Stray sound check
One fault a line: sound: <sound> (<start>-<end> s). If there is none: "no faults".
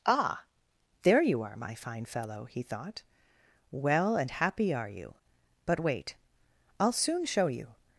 no faults